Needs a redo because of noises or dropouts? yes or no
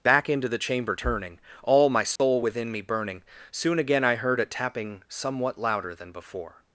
yes